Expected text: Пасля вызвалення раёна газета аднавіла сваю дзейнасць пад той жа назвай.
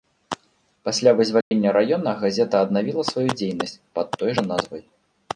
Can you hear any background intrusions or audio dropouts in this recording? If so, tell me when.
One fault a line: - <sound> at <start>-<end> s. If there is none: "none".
- dropout at 1.4-1.5 s